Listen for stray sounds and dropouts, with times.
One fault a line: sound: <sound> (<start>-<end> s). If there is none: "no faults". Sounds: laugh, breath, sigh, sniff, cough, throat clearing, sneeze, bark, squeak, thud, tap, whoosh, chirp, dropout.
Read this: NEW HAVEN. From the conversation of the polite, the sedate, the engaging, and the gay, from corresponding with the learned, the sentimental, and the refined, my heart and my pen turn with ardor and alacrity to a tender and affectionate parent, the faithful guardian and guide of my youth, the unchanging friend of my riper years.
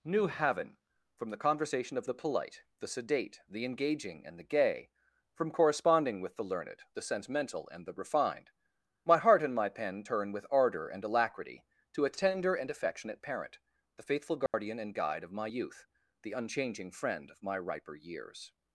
sound: dropout (14.5-14.5 s)